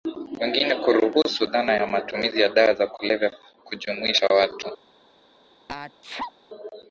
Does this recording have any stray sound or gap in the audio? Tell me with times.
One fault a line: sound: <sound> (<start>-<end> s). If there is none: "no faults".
sound: sneeze (5.7-6.3 s)